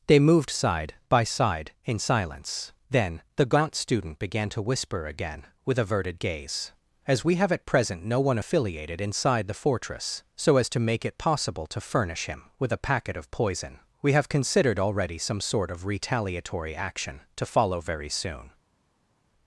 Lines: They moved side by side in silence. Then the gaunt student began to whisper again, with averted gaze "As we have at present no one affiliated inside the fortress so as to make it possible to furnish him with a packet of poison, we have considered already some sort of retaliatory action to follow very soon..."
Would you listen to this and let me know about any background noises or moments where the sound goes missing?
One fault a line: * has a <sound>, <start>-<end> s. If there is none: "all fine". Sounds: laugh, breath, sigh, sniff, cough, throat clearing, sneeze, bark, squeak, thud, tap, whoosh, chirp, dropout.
all fine